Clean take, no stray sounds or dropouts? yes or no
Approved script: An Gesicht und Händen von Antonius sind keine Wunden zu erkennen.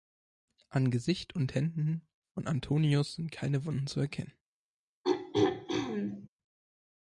no